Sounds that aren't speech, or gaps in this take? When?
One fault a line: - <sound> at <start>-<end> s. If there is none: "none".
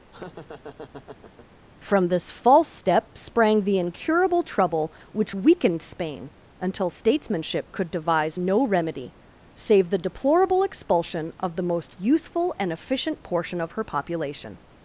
- laugh at 0.1-1.5 s